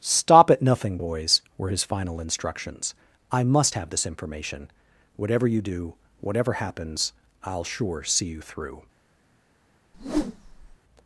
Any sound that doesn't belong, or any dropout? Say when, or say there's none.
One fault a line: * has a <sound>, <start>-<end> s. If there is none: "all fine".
* has a whoosh, 9.9-10.8 s